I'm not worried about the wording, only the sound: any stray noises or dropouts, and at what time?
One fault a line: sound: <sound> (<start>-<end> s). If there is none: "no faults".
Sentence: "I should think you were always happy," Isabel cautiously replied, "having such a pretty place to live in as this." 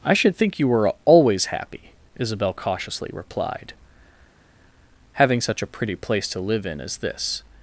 no faults